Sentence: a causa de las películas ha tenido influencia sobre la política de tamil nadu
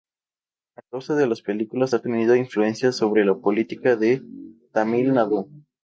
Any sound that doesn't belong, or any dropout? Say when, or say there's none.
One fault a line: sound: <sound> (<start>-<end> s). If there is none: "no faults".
no faults